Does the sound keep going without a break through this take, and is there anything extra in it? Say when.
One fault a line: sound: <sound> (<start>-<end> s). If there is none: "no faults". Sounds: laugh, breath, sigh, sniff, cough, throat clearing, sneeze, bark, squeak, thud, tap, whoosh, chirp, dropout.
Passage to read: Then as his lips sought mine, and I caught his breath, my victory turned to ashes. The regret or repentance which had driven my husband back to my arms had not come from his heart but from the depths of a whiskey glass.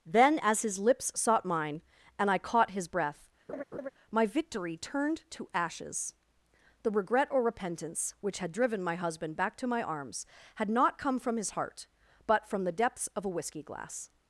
sound: laugh (3.5-3.9 s)